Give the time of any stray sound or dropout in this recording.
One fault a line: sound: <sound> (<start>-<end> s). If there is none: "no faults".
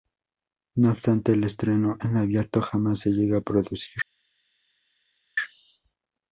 no faults